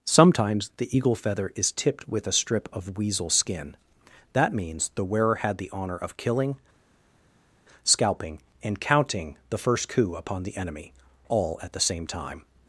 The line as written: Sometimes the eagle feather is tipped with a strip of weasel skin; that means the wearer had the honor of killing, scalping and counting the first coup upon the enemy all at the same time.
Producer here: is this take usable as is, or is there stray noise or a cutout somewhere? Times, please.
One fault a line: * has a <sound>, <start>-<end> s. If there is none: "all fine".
all fine